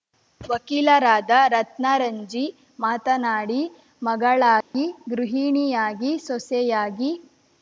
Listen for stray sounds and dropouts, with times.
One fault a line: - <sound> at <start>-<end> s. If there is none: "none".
- dropout at 4.6-4.7 s